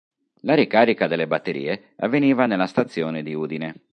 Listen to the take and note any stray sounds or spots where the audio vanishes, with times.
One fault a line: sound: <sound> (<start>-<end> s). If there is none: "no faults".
no faults